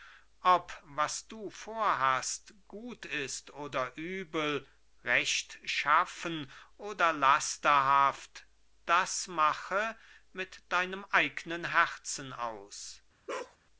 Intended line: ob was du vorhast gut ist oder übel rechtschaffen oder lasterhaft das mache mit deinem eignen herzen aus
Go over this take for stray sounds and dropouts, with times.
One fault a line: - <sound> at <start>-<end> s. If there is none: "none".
- bark at 13.3-13.6 s